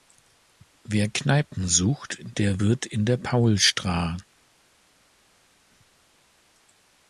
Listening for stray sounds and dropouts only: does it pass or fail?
pass